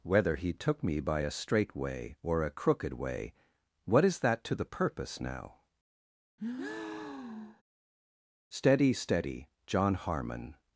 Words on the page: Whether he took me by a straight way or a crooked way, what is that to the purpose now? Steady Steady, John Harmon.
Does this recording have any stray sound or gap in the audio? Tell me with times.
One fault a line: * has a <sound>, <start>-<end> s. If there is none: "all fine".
* has a breath, 6.4-7.6 s